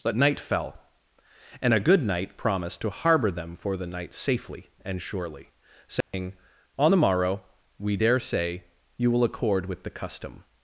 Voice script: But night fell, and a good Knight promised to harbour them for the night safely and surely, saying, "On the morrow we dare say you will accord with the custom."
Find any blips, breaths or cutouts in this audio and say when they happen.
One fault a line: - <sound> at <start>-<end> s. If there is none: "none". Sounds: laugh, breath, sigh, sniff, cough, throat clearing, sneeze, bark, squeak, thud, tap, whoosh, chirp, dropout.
- dropout at 6.0-6.1 s